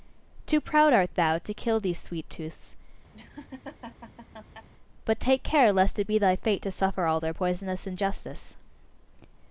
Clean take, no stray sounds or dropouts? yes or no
no